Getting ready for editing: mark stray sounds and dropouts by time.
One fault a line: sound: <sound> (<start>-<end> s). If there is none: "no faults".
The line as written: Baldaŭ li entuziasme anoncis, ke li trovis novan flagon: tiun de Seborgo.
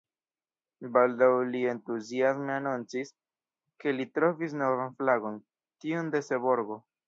no faults